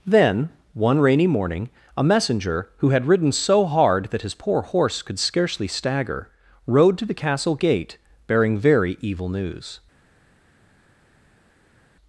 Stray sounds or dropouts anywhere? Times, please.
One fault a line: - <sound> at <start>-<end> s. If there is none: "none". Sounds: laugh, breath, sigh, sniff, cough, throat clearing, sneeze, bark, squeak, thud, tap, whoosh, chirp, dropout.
none